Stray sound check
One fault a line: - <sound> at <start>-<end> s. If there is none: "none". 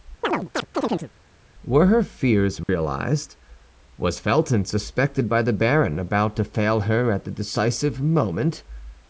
- chirp at 0.2-1.1 s
- dropout at 2.6-2.7 s